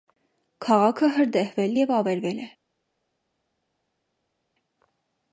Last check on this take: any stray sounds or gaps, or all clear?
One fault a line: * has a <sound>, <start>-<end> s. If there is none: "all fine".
all fine